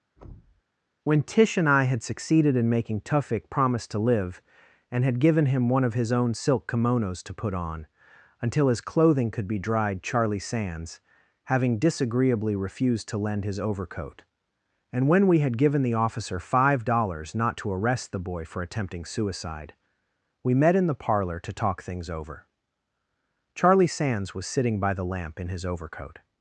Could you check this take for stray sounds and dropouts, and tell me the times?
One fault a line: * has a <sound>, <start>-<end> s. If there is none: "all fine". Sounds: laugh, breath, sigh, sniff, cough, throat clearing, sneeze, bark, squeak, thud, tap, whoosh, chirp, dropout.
* has a thud, 0.2-0.6 s